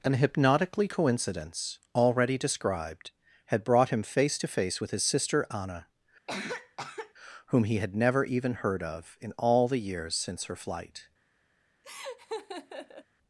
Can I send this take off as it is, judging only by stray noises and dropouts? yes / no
no